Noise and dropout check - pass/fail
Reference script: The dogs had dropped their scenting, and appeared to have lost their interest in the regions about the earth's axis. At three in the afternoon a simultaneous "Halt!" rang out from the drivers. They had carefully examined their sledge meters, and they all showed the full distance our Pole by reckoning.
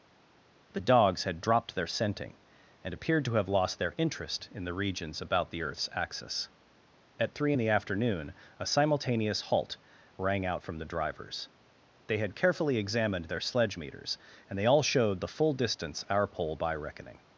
pass